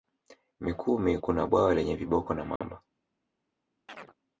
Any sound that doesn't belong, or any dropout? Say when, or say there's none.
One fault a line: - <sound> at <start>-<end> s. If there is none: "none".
- dropout at 2.6-2.6 s
- chirp at 3.9-4.1 s